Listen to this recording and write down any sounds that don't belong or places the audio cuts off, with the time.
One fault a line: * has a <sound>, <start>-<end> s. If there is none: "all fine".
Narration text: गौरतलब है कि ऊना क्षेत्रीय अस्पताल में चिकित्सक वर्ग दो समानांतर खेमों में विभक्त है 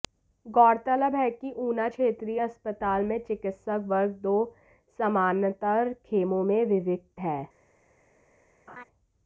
* has a laugh, 8.7-8.8 s